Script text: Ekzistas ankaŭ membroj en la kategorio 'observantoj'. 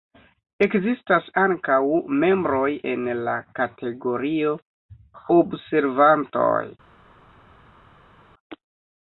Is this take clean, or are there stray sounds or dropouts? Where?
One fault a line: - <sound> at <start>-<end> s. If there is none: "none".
none